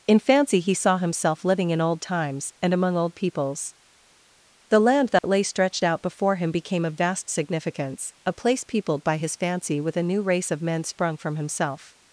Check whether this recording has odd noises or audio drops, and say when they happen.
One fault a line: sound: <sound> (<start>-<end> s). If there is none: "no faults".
sound: dropout (5.2-5.2 s)